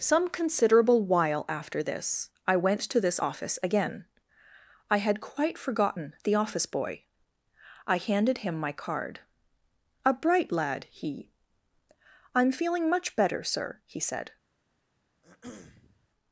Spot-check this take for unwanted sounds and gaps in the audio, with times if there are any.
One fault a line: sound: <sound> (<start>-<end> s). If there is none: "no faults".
sound: throat clearing (15.2-16.1 s)